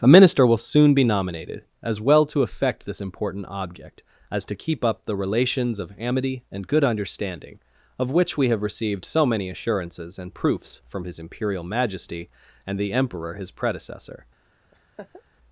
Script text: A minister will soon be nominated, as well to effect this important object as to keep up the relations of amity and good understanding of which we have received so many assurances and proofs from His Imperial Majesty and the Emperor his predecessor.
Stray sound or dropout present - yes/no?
yes